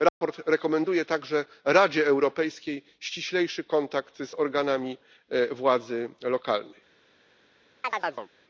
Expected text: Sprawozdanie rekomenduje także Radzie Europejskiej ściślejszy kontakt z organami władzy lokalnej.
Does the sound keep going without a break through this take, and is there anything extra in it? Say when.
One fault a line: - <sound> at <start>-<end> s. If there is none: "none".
- dropout at 0.1-0.2 s
- chirp at 7.8-8.3 s